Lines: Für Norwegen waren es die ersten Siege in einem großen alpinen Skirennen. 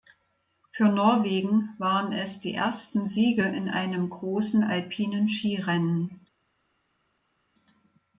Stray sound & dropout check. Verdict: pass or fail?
pass